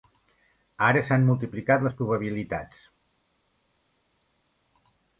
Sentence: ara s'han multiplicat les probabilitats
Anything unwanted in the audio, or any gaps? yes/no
no